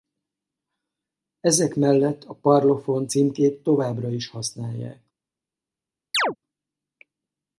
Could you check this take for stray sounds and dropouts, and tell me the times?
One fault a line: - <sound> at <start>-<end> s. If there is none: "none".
- chirp at 6.1-6.4 s